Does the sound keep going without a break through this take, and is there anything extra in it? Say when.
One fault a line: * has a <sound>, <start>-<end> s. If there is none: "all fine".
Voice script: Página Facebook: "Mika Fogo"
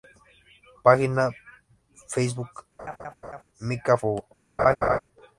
* has a laugh, 2.8-3.4 s
* has a laugh, 4.6-5.0 s